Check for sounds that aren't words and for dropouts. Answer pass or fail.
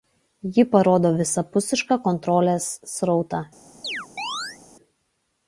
fail